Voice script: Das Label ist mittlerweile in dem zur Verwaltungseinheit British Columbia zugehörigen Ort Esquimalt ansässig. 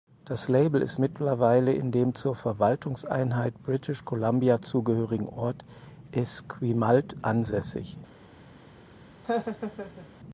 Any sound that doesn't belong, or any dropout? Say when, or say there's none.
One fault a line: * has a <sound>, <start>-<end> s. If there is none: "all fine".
* has a laugh, 9.2-10.1 s